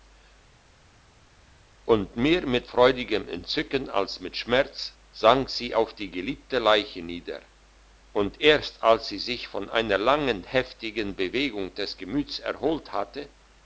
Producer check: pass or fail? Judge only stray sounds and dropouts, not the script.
pass